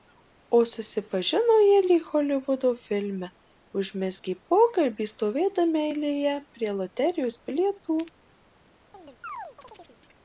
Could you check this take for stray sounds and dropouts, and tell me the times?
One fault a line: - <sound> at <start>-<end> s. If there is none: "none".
- chirp at 8.9-10.0 s